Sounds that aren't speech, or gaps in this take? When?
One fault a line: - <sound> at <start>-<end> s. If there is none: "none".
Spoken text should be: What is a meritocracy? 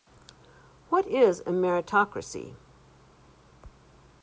none